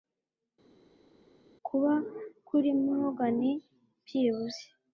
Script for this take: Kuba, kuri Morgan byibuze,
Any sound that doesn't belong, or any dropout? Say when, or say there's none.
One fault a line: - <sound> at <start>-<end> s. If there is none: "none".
none